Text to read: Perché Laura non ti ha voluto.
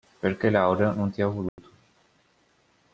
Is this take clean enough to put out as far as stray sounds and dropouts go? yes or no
no